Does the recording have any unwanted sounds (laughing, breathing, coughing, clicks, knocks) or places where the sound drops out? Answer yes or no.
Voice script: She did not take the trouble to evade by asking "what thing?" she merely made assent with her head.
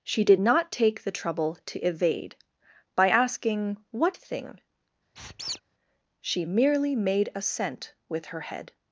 yes